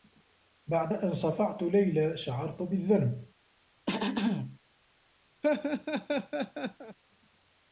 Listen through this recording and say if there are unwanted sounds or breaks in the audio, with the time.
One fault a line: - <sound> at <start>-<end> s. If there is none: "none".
- throat clearing at 3.9-4.6 s
- laugh at 5.4-7.0 s